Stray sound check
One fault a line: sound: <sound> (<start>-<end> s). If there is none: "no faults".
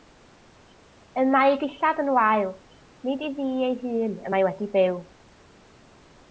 no faults